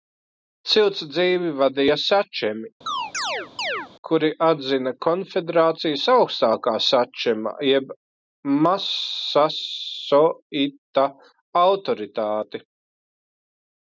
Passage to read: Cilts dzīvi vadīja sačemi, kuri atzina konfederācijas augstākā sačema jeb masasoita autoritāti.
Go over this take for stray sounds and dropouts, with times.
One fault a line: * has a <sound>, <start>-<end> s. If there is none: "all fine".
* has a chirp, 2.9-3.9 s